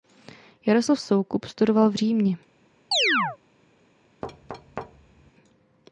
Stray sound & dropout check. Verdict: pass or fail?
fail